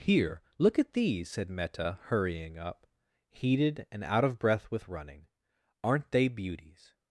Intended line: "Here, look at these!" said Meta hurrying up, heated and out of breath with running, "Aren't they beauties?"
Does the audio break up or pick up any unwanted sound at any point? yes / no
no